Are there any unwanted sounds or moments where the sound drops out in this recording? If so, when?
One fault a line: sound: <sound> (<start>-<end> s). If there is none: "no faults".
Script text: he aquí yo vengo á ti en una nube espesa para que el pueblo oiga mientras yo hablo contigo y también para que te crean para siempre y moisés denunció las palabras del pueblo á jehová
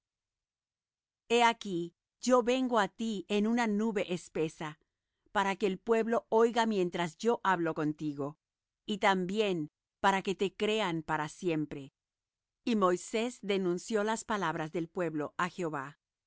no faults